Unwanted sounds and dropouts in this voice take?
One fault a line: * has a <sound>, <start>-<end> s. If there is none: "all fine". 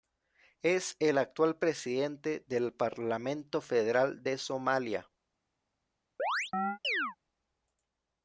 * has a chirp, 6.2-7.2 s